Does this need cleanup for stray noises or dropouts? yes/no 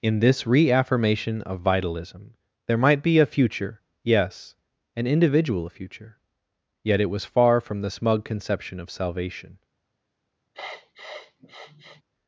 yes